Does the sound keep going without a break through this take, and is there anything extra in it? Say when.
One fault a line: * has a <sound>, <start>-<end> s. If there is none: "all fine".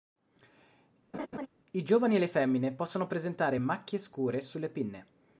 * has a laugh, 1.1-1.5 s